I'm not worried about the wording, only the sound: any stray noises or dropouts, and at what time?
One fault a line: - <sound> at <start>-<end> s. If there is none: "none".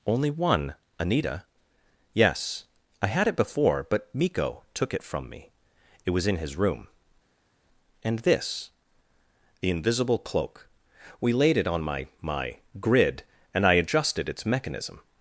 none